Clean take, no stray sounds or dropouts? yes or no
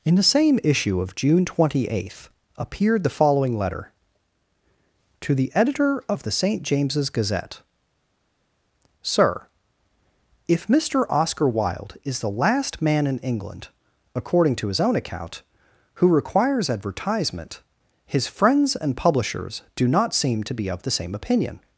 yes